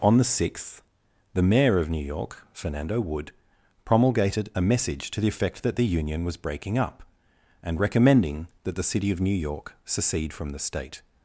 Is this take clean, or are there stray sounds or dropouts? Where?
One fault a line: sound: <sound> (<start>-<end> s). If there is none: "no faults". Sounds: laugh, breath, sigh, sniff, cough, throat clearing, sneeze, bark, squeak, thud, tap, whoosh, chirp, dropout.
no faults